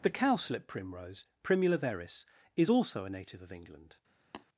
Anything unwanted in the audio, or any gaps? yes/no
yes